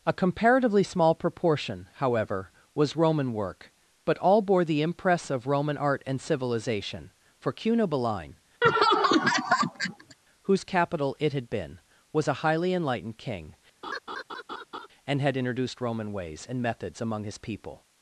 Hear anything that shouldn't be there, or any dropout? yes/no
yes